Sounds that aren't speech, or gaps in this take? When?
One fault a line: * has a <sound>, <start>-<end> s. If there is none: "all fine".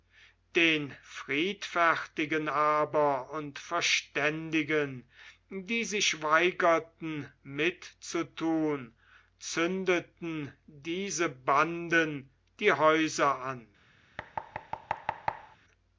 * has a thud, 14.2-15.6 s